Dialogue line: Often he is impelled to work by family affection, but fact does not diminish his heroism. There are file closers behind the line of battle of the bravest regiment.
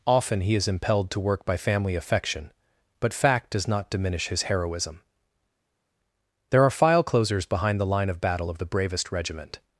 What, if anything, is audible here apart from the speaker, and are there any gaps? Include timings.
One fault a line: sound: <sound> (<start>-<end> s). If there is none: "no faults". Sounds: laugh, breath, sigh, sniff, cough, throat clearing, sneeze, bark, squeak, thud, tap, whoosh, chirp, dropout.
no faults